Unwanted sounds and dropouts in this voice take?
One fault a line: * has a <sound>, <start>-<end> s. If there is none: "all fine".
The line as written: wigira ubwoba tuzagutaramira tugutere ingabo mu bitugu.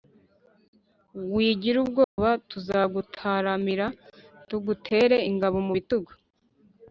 * has a dropout, 2.0-2.2 s